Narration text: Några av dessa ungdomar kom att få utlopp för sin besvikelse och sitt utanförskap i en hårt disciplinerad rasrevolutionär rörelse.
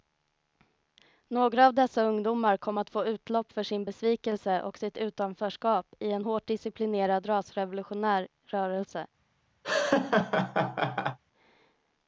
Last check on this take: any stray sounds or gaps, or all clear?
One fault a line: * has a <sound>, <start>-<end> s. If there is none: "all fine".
* has a laugh, 9.6-11.2 s